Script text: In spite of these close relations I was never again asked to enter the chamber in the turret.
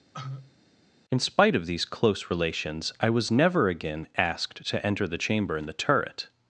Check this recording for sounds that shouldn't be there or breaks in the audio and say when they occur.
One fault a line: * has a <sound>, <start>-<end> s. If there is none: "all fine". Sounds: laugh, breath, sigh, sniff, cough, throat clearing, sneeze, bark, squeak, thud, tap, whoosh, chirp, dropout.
* has a cough, 0.1-0.6 s